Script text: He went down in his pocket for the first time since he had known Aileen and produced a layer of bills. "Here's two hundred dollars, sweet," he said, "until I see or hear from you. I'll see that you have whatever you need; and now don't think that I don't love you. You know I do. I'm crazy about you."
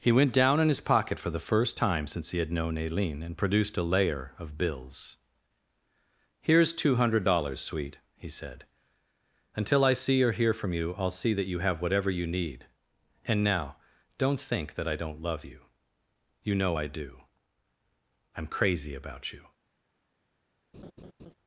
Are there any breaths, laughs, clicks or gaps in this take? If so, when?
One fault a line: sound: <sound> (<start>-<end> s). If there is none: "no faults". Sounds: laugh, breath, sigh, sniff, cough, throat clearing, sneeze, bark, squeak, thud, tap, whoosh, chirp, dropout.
sound: laugh (20.7-21.3 s)